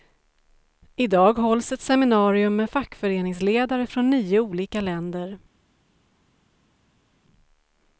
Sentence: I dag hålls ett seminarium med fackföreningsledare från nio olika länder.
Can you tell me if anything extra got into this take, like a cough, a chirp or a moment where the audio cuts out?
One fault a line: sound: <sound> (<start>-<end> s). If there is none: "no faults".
no faults